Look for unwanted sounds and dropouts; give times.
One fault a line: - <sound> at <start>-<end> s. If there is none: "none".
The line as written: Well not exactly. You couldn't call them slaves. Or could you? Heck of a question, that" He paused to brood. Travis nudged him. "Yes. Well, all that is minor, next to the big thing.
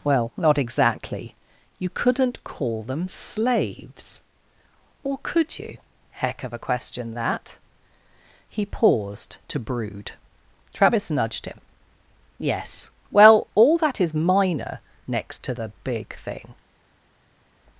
none